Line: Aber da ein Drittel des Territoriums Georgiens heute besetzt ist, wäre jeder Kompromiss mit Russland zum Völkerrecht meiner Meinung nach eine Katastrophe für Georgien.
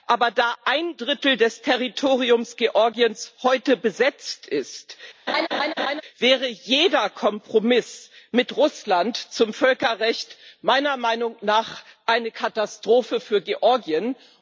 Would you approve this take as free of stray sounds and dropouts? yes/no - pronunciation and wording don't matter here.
no